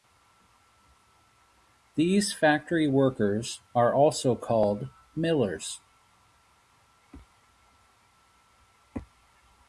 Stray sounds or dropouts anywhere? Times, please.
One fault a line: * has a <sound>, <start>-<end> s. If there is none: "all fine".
all fine